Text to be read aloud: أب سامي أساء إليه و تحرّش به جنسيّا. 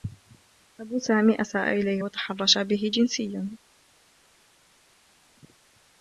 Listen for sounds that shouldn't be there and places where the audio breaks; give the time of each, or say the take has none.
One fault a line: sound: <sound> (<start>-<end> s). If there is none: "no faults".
no faults